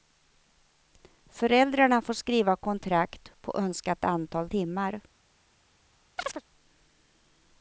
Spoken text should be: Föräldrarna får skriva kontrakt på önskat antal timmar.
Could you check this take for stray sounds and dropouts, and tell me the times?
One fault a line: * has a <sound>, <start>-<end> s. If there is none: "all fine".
* has a chirp, 6.2-6.4 s